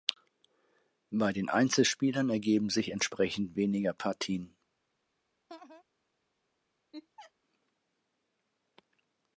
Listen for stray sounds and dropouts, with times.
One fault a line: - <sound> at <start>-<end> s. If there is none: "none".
- laugh at 5.5-5.8 s
- laugh at 6.9-7.3 s